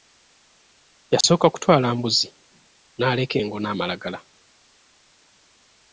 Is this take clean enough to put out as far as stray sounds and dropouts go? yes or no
no